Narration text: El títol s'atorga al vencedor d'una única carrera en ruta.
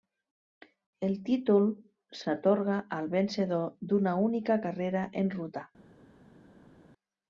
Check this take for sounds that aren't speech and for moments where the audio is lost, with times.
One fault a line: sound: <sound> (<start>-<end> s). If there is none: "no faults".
no faults